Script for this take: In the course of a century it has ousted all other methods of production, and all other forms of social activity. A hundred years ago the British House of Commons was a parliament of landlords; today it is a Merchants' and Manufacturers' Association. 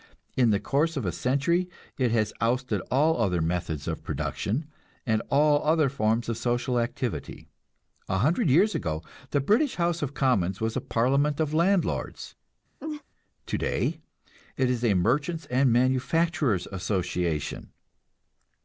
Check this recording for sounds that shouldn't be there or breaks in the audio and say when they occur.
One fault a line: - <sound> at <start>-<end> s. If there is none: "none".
- laugh at 12.8-13.0 s